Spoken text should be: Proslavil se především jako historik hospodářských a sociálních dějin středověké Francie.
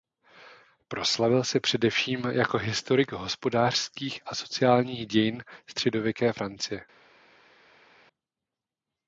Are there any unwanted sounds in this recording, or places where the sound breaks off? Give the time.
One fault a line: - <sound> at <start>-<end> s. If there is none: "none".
none